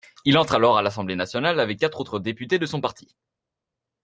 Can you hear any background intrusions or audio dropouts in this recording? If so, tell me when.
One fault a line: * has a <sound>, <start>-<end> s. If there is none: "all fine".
all fine